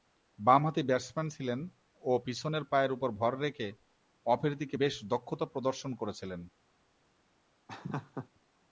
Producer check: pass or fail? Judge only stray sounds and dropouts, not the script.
fail